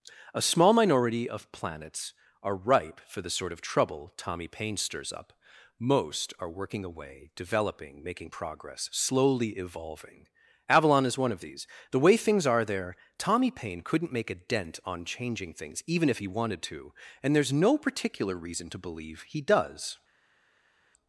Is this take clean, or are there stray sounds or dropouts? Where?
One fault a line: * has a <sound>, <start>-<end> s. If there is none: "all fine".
all fine